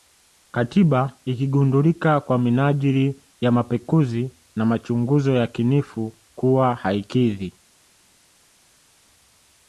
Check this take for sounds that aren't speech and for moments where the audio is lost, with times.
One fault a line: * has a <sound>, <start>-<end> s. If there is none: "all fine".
all fine